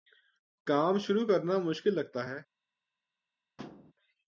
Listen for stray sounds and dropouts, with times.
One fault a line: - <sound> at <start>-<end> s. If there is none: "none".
- thud at 3.6-3.9 s